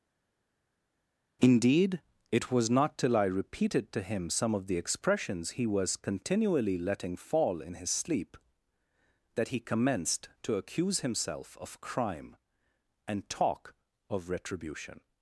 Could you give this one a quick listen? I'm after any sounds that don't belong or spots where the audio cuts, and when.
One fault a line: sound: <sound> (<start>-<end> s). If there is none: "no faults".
no faults